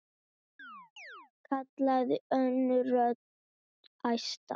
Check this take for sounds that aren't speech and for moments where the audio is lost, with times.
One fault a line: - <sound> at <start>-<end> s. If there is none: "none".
- chirp at 0.6-1.3 s